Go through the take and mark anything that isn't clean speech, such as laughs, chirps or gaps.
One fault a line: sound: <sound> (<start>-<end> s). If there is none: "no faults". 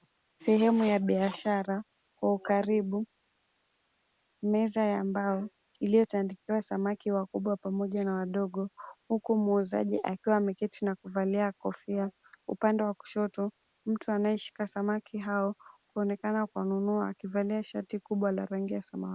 no faults